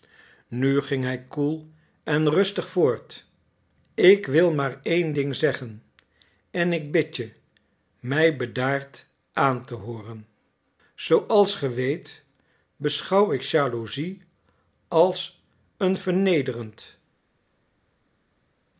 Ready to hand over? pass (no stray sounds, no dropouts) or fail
pass